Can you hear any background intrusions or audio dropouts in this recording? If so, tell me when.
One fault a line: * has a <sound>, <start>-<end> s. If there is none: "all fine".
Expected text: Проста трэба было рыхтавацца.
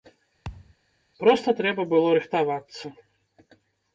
* has a thud, 0.4-0.8 s